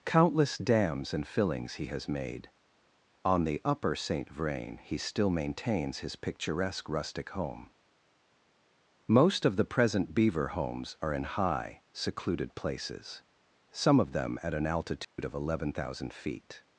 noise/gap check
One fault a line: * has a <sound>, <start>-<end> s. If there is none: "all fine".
* has a dropout, 15.0-15.2 s